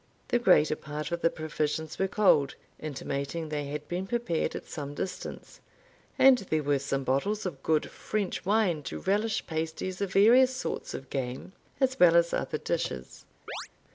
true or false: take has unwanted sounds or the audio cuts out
true